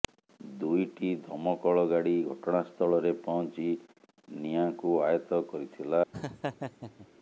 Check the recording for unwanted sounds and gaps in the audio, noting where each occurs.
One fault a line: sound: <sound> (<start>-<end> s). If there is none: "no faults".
sound: laugh (6.1-7.1 s)